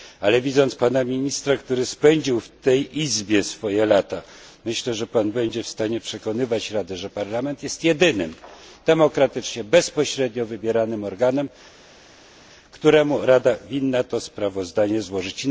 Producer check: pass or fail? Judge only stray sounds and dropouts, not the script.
pass